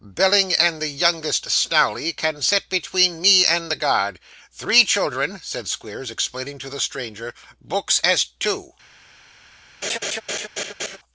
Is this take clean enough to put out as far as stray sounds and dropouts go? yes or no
no